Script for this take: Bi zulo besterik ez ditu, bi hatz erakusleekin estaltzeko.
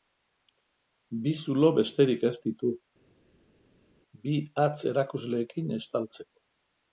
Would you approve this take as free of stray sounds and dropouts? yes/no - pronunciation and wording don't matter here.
yes